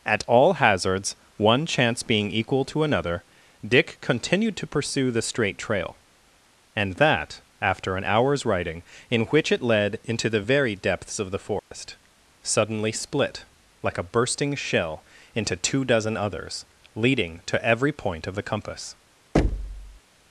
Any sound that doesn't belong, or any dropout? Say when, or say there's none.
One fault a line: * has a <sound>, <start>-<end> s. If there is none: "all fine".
* has a dropout, 11.6-11.7 s
* has a thud, 19.3-20.0 s